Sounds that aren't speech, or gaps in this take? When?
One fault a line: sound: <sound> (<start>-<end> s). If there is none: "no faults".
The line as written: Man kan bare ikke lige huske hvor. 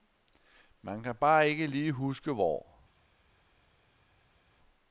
no faults